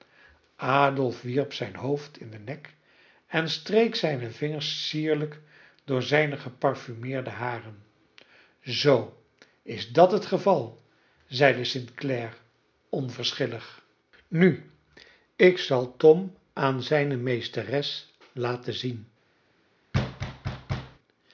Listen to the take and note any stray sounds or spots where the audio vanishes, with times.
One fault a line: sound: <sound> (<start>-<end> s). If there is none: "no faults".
sound: thud (19.9-21.0 s)